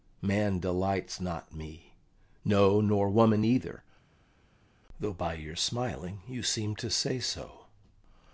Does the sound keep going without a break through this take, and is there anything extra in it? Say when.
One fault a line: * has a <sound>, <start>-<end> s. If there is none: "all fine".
all fine